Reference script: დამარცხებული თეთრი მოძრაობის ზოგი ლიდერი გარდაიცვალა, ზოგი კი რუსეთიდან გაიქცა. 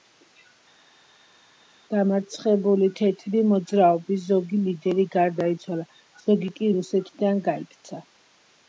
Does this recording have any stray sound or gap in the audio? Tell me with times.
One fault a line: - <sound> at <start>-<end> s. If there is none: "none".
none